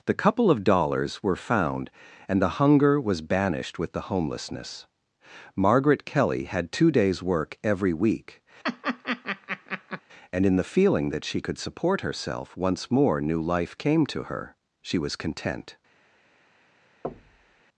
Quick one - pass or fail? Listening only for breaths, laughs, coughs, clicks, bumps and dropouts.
fail